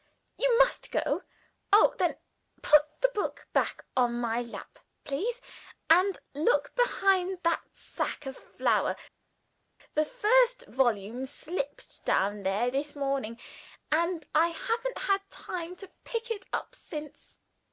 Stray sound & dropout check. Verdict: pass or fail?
pass